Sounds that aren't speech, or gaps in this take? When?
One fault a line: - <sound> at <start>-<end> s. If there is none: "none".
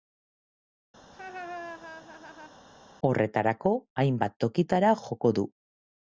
- laugh at 1.0-2.6 s